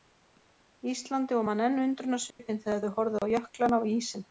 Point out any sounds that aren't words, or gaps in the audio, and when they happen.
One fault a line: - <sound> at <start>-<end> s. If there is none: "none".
- dropout at 2.3-2.4 s
- dropout at 3.2-3.2 s